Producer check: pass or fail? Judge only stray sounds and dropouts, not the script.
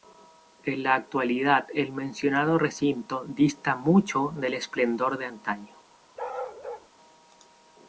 fail